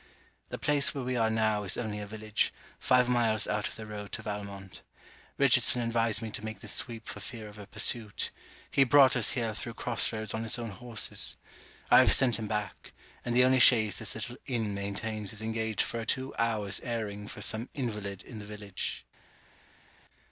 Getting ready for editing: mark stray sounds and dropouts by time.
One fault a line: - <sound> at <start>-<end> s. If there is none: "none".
none